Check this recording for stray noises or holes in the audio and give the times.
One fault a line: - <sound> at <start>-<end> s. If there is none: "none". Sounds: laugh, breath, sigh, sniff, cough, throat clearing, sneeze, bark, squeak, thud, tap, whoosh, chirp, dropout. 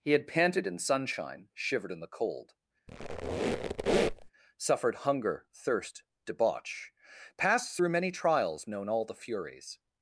- squeak at 2.9-4.3 s